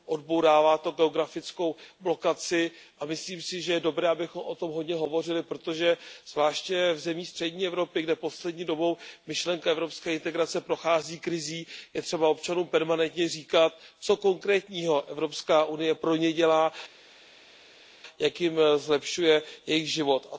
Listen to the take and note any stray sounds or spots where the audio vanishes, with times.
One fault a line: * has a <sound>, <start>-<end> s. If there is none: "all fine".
all fine